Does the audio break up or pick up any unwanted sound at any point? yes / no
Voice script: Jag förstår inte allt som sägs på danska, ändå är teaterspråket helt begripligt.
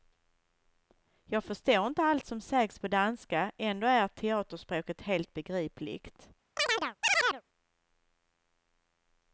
yes